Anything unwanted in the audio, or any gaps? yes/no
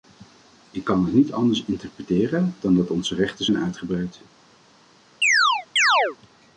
yes